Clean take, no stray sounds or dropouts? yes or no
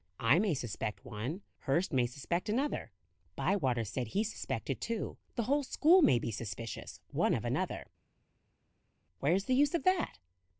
yes